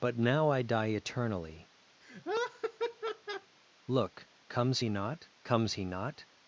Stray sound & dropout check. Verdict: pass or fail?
fail